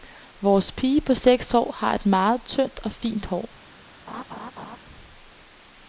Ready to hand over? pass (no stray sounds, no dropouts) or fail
fail